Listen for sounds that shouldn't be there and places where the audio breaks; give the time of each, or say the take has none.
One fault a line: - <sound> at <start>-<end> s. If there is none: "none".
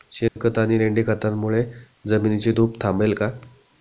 - dropout at 0.3-0.4 s